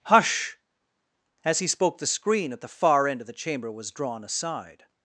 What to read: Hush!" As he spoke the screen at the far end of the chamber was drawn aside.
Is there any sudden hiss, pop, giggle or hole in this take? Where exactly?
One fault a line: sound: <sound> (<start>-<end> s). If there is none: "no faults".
no faults